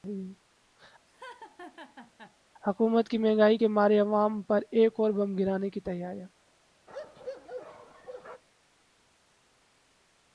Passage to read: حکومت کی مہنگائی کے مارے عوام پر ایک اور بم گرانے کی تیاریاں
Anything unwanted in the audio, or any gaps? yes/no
yes